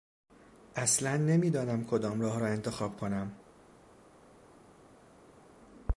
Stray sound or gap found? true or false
false